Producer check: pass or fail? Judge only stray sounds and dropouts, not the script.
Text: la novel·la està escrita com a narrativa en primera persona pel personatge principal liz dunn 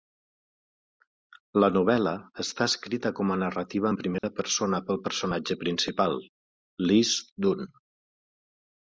fail